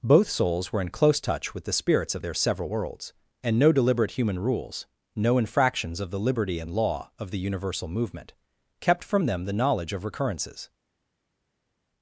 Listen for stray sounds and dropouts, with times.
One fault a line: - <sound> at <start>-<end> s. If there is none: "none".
none